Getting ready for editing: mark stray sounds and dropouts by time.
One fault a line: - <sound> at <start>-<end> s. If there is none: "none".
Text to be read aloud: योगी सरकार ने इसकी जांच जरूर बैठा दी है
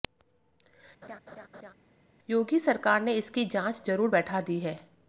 - laugh at 1.0-1.7 s